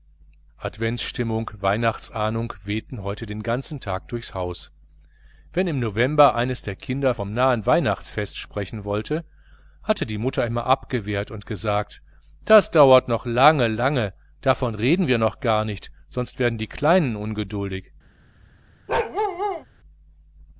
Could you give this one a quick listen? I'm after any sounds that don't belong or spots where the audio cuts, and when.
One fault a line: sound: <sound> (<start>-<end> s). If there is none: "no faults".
sound: bark (18.9-19.7 s)